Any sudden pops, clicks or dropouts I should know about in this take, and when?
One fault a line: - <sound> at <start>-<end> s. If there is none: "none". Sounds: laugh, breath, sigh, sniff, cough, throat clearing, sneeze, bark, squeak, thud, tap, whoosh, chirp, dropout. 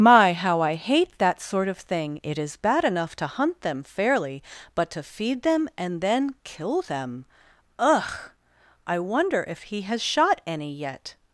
none